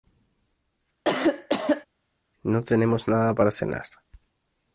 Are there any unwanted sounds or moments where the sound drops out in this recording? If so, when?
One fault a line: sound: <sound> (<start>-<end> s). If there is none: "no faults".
sound: cough (1.0-1.9 s)